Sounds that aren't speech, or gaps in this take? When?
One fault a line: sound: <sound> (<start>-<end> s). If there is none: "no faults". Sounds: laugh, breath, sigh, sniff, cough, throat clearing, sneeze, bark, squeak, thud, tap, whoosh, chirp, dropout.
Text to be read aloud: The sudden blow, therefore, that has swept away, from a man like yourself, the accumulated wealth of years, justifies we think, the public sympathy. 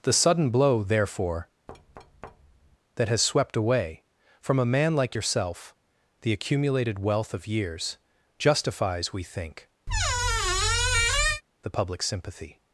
sound: thud (1.7-2.8 s)
sound: squeak (9.9-11.4 s)